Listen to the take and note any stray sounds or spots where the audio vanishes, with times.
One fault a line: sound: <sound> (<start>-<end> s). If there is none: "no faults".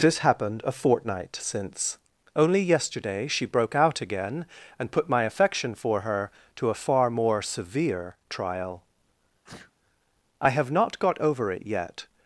sound: sneeze (9.4-9.7 s)